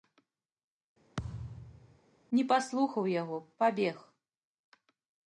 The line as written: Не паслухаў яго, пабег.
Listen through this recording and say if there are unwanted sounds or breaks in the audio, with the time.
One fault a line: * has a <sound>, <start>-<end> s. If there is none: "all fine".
* has a thud, 1.2-2.0 s